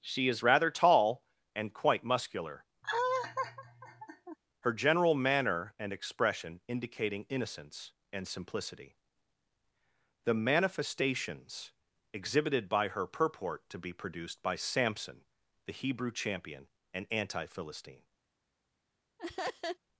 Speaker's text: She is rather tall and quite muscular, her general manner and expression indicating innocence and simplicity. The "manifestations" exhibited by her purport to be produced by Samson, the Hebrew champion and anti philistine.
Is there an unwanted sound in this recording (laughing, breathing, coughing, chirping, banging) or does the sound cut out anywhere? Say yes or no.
yes